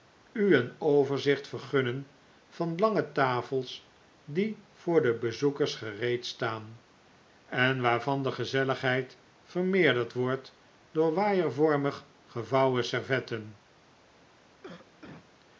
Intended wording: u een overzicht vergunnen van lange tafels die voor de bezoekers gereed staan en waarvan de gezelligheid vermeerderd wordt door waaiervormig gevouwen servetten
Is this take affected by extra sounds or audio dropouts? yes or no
yes